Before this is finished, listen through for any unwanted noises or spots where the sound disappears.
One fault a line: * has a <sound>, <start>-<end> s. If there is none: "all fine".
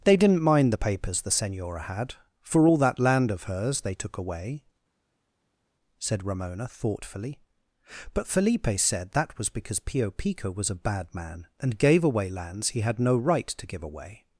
all fine